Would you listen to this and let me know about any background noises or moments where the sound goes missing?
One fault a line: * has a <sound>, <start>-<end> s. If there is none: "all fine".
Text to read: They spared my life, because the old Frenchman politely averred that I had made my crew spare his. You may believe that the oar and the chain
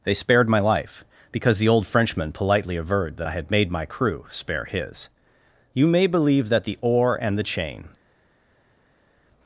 all fine